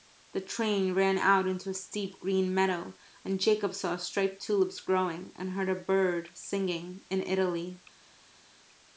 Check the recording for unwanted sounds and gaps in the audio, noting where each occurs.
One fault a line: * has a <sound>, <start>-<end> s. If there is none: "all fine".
all fine